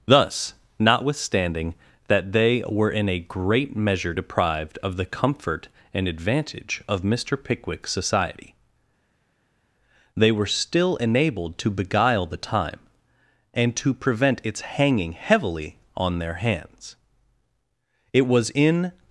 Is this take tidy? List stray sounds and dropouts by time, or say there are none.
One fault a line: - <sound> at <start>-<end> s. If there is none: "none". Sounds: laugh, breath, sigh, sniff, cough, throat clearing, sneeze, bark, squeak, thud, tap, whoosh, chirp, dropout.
none